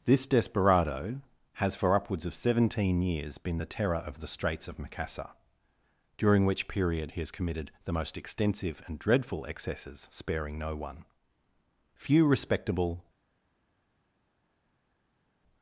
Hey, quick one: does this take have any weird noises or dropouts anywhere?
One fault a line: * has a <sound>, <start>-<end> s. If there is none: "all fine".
all fine